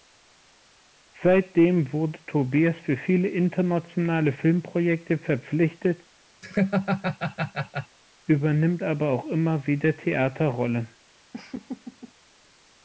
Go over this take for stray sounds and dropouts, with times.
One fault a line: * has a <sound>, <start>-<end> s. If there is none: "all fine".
* has a laugh, 6.4-8.0 s
* has a laugh, 11.3-12.1 s